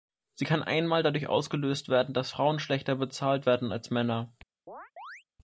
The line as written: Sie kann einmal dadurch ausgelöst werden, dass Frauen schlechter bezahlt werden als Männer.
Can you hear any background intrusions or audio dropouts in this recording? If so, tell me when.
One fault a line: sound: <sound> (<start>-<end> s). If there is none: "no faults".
sound: chirp (4.7-5.2 s)